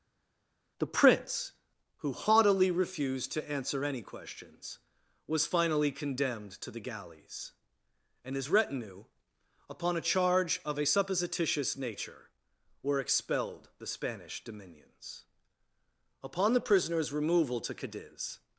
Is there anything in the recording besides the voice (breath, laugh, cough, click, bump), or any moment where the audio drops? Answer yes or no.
no